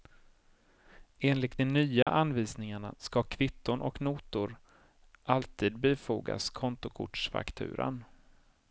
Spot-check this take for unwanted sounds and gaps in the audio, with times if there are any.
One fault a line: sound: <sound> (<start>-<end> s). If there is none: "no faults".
sound: dropout (2.0-2.1 s)